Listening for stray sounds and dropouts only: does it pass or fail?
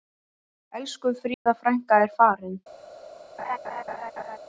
fail